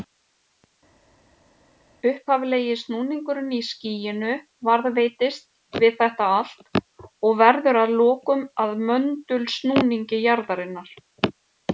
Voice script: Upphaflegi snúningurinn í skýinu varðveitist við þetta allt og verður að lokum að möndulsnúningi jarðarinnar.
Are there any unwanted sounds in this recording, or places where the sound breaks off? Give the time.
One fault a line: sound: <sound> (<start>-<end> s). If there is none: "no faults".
no faults